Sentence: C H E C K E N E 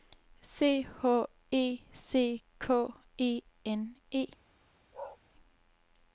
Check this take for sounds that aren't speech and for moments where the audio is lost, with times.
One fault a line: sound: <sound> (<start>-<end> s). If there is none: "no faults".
sound: bark (4.9-5.2 s)